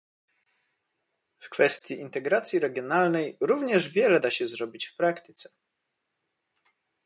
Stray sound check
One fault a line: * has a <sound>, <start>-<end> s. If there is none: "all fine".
all fine